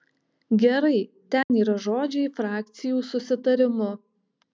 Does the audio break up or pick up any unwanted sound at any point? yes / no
yes